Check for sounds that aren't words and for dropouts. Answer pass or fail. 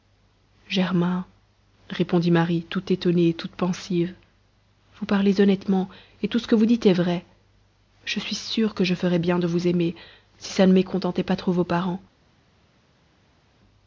pass